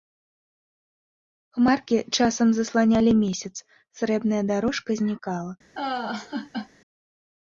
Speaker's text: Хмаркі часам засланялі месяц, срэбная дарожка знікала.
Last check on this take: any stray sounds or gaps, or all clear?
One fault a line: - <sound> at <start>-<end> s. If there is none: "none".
- laugh at 5.8-6.7 s